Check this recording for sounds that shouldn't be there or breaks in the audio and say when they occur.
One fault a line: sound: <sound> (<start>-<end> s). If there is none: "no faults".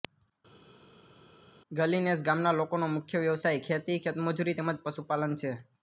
no faults